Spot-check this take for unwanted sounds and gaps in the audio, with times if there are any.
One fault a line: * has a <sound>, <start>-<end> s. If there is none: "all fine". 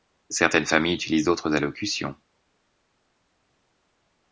all fine